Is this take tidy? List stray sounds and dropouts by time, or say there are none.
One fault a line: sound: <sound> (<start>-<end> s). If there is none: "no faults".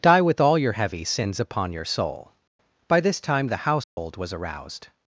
sound: dropout (3.8-4.0 s)